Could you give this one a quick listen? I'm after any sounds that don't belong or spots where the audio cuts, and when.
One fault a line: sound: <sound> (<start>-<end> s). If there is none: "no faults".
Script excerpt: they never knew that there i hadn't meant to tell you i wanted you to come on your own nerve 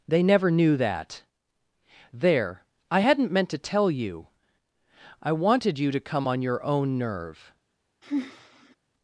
sound: sigh (8.0-8.8 s)